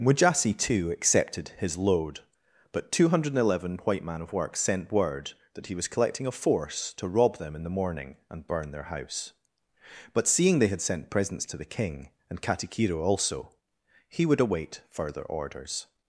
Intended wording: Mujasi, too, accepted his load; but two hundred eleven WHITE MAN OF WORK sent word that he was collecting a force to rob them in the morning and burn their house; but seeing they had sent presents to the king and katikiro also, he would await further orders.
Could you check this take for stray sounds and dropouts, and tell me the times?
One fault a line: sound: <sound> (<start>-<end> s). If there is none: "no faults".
no faults